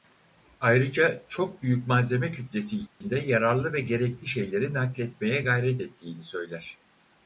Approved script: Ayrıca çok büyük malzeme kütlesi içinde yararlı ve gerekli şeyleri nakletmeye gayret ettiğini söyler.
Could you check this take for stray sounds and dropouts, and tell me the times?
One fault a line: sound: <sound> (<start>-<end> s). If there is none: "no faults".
sound: dropout (2.9-3.0 s)